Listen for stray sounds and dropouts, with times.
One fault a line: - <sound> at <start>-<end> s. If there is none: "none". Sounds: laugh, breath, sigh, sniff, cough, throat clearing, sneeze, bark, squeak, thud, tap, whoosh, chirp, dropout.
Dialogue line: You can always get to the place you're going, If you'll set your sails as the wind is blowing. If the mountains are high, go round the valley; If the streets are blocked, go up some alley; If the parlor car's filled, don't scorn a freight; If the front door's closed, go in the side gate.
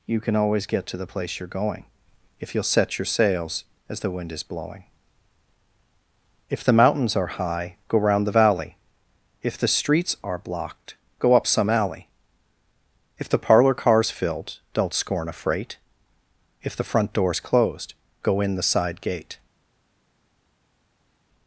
none